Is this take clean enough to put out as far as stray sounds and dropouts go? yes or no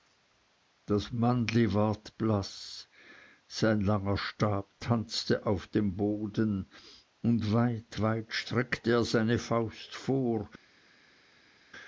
yes